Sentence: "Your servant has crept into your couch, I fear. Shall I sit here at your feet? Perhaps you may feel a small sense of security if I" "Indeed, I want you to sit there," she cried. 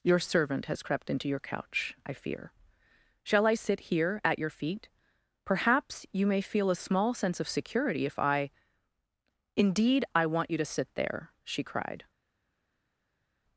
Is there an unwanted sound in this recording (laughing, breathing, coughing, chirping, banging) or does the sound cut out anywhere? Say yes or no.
no